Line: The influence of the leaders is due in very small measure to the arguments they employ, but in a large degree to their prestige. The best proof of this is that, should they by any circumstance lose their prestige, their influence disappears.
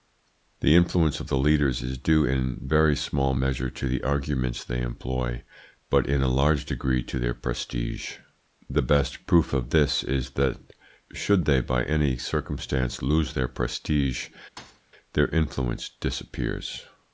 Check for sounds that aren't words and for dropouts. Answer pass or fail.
fail